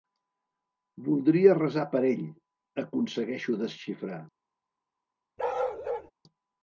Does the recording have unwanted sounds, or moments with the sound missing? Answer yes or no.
yes